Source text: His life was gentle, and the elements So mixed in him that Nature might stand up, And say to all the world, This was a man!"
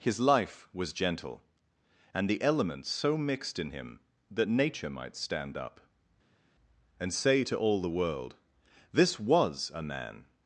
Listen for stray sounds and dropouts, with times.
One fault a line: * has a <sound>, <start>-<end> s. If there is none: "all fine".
all fine